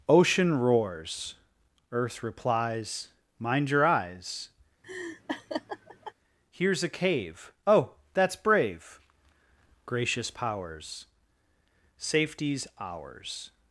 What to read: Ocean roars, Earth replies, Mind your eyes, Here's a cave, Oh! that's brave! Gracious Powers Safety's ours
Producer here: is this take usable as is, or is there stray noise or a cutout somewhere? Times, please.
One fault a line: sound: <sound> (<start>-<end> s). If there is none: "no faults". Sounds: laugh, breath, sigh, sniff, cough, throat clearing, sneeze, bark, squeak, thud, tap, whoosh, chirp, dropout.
sound: laugh (4.8-6.1 s)